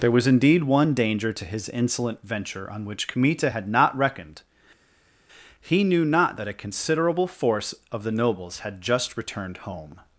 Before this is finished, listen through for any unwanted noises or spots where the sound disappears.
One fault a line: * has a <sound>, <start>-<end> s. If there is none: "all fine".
all fine